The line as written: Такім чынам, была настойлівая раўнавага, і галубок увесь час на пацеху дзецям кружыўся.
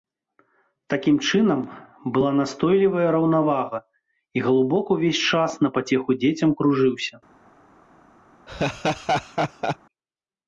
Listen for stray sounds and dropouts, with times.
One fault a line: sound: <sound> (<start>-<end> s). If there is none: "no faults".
sound: laugh (8.5-9.8 s)